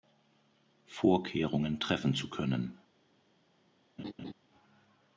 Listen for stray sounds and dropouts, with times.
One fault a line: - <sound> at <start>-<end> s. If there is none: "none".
- laugh at 4.0-4.3 s